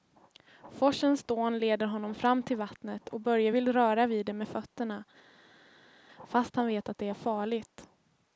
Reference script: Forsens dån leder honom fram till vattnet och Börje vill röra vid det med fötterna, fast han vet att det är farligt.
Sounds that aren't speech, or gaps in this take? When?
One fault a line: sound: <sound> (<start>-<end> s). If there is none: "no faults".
no faults